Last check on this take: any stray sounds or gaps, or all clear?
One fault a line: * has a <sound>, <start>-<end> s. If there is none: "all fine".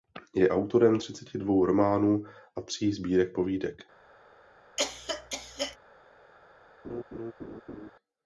* has a cough, 4.8-5.8 s
* has a laugh, 6.8-7.9 s